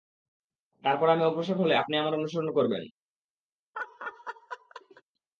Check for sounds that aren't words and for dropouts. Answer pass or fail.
fail